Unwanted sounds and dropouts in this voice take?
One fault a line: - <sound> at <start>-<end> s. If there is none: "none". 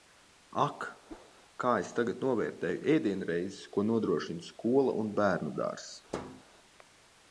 - whoosh at 1.1-1.3 s
- thud at 6.1-6.4 s